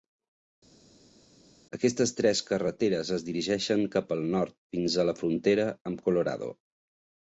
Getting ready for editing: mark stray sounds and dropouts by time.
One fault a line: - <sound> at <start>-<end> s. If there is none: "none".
none